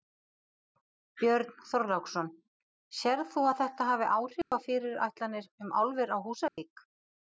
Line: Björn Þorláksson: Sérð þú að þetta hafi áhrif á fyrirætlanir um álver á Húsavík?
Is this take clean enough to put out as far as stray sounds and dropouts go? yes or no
no